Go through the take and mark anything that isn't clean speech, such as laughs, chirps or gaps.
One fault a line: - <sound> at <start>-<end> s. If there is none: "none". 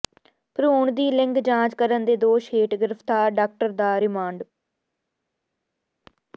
none